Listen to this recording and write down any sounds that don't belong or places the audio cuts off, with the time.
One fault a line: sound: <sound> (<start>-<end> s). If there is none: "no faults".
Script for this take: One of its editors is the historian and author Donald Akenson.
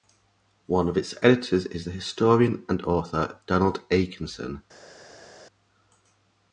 no faults